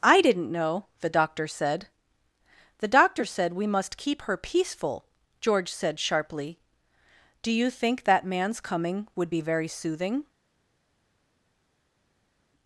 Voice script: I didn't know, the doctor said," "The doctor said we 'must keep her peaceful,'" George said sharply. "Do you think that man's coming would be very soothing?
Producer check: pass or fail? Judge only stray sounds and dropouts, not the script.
pass